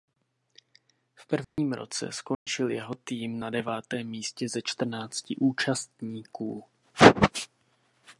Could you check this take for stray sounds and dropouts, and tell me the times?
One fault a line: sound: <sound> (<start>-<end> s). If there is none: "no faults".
sound: dropout (1.4-1.6 s)
sound: dropout (2.3-2.5 s)